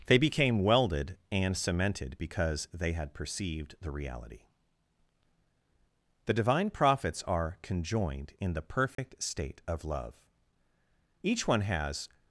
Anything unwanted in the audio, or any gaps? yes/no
yes